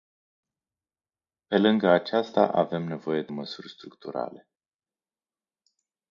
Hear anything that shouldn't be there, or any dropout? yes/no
no